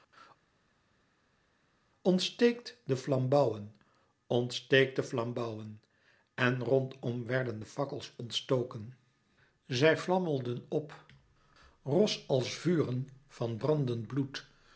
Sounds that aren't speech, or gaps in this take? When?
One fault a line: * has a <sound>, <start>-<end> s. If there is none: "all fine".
all fine